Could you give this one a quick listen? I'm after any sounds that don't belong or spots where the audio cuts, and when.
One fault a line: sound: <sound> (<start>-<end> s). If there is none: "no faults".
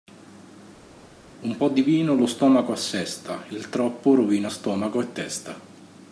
no faults